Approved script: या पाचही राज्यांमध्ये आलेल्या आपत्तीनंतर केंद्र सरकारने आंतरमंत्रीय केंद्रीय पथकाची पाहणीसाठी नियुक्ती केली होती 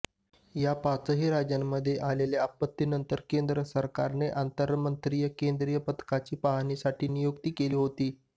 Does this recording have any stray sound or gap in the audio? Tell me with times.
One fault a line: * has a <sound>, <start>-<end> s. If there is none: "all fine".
all fine